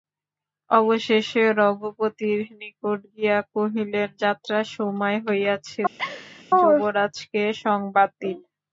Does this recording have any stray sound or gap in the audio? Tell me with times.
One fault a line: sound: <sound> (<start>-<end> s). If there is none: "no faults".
sound: laugh (6.0-6.4 s)